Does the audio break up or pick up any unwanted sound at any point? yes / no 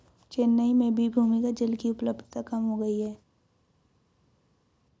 no